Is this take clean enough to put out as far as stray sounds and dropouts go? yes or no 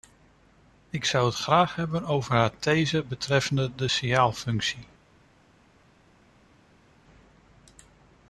yes